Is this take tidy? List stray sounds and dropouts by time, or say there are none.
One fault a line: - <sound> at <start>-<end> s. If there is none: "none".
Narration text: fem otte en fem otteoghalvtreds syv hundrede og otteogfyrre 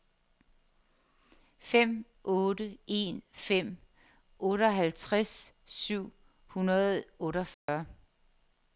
- dropout at 7.5-7.7 s